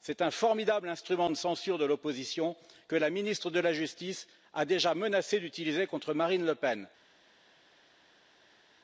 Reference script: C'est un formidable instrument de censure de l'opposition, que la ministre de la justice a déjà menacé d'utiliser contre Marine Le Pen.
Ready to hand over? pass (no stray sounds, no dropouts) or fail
pass